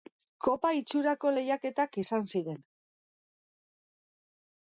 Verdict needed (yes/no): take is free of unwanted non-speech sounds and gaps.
yes